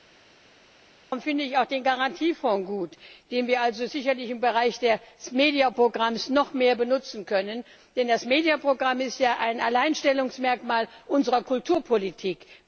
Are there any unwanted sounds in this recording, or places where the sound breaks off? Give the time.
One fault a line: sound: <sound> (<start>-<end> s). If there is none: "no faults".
no faults